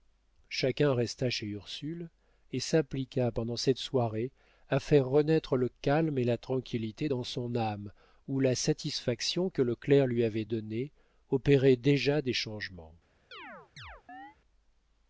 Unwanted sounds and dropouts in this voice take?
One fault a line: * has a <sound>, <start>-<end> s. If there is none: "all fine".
* has a chirp, 13.3-14.4 s